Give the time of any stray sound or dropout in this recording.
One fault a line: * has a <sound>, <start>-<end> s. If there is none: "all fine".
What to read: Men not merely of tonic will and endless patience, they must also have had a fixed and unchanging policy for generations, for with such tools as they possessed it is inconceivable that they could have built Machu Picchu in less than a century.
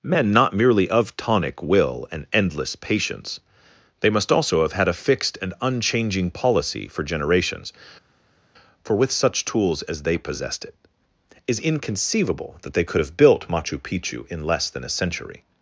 all fine